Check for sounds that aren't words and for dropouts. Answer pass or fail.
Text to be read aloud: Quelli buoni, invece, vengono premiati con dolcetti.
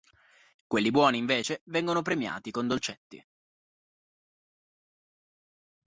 pass